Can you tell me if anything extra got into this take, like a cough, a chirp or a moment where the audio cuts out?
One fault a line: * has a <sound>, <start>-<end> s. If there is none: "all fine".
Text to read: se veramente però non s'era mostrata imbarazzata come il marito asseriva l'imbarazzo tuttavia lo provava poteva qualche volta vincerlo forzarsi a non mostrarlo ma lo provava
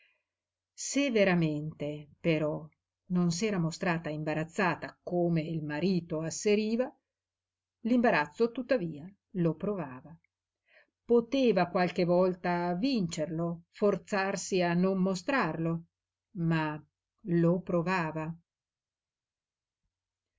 all fine